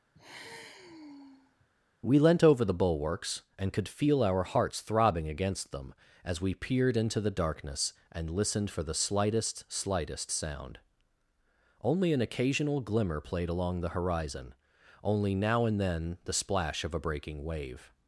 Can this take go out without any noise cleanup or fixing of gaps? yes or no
no